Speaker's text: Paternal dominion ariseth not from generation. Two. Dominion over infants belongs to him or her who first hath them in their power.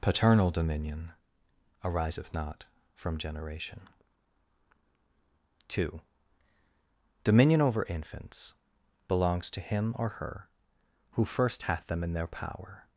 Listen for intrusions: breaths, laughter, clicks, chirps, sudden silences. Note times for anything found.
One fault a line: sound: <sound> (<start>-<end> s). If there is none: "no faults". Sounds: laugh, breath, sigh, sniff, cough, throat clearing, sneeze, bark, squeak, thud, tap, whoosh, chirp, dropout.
no faults